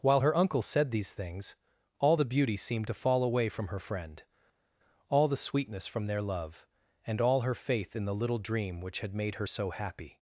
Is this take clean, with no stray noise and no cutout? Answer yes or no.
yes